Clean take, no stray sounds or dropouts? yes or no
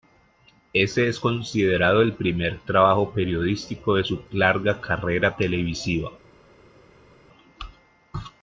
yes